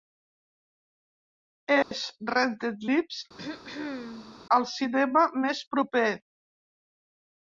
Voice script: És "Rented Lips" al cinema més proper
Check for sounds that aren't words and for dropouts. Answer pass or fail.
fail